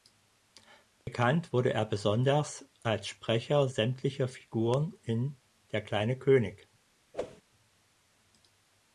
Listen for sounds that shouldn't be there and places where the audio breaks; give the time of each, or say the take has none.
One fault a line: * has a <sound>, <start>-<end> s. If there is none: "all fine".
* has a dropout, 1.0-1.1 s
* has a whoosh, 7.1-7.4 s